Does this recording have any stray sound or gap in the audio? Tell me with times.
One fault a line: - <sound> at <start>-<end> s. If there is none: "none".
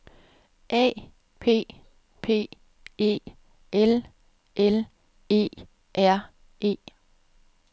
none